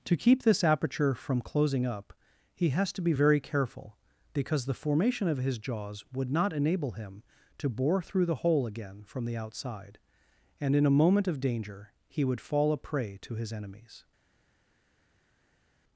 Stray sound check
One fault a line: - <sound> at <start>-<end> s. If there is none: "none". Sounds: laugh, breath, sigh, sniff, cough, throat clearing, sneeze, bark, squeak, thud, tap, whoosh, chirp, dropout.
none